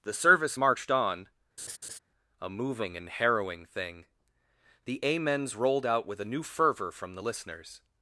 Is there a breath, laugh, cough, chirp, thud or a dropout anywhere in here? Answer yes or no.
yes